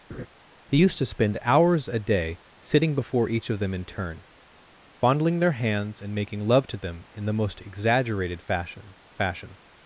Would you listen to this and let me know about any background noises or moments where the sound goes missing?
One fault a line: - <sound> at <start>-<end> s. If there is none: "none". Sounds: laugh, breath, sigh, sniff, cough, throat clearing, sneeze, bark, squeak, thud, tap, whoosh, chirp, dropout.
- laugh at 0.1-0.3 s